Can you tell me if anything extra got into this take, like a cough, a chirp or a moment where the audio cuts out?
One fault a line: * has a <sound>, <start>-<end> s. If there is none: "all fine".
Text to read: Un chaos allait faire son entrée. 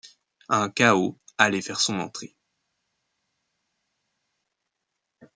all fine